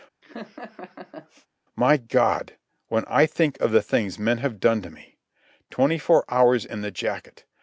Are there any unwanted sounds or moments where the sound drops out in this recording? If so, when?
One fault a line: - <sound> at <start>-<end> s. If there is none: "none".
- laugh at 0.2-1.5 s